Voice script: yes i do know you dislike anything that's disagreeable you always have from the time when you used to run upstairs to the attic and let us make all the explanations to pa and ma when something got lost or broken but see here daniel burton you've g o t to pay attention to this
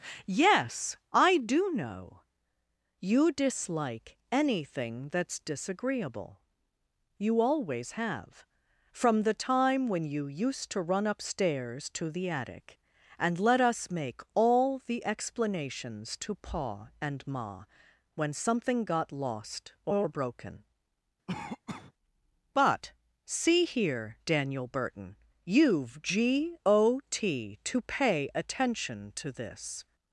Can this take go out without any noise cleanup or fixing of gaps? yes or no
no